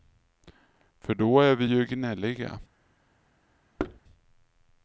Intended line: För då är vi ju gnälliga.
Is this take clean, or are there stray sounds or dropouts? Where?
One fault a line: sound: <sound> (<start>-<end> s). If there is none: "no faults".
sound: thud (3.8-4.0 s)